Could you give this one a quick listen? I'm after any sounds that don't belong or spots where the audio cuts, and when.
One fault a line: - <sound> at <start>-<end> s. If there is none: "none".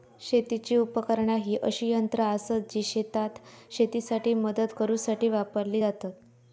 none